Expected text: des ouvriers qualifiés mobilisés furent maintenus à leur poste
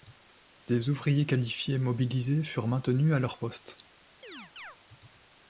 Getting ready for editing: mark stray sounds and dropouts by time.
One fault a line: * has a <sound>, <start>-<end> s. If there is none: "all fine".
* has a chirp, 4.2-4.8 s